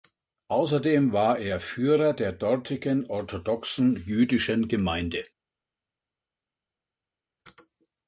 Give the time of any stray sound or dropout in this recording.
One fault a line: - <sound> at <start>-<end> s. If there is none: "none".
none